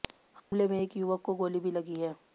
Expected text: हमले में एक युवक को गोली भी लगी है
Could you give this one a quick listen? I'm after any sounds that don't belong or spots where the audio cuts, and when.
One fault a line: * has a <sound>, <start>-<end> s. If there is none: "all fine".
* has a dropout, 0.4-0.5 s